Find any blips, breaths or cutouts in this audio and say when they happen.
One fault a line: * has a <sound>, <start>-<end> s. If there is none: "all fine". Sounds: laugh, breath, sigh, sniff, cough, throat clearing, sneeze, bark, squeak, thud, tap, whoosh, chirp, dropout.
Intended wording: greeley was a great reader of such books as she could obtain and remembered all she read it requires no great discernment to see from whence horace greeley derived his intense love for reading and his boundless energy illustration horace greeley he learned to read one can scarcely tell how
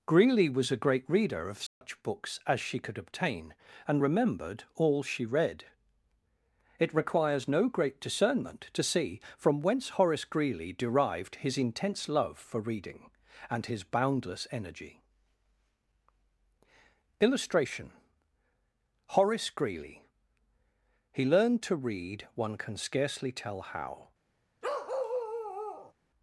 * has a dropout, 1.7-1.8 s
* has a bark, 24.6-25.9 s